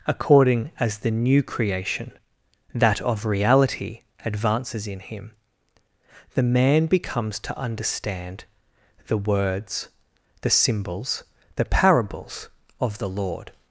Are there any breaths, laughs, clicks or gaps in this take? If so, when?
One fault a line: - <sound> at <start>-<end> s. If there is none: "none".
none